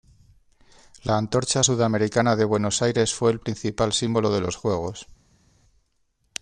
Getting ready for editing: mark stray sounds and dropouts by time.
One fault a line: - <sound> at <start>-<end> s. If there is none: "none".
none